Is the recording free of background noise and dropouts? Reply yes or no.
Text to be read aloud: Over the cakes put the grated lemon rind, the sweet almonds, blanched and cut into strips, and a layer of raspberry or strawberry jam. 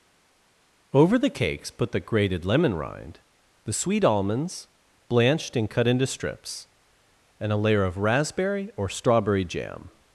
yes